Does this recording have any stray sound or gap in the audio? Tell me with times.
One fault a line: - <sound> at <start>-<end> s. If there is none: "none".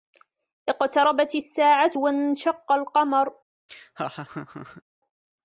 - laugh at 3.7-4.8 s